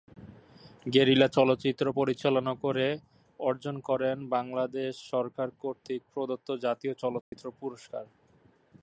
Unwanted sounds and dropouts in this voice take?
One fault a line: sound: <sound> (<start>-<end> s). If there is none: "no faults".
sound: dropout (7.2-7.3 s)